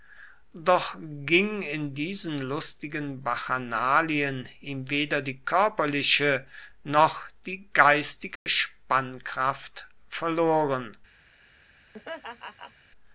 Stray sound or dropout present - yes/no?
yes